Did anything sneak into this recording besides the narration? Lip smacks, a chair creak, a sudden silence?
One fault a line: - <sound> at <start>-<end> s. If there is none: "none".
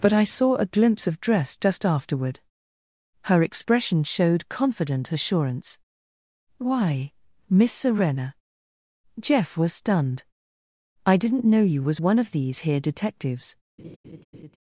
- laugh at 13.8-14.6 s